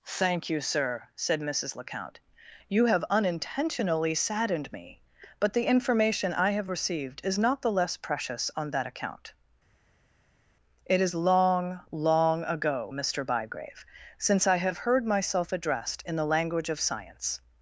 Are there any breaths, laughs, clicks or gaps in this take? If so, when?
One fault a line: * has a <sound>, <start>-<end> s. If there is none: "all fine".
all fine